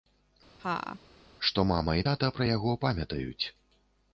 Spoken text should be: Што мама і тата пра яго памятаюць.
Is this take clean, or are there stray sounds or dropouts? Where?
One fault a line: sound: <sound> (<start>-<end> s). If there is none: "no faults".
sound: laugh (0.6-1.0 s)